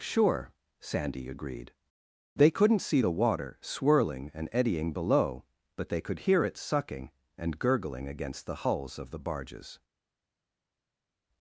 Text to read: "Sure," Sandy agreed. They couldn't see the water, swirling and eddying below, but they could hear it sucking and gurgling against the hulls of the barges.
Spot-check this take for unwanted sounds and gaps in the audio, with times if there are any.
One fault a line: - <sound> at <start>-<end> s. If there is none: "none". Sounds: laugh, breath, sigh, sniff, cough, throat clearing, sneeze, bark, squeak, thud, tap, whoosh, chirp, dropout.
none